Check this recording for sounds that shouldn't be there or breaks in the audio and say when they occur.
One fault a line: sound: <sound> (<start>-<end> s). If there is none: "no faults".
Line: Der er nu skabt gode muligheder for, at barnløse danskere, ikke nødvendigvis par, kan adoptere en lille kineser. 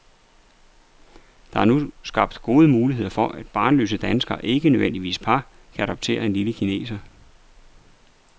no faults